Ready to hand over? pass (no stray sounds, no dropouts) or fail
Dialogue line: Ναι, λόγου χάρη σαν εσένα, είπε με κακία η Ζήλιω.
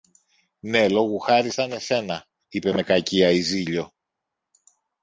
pass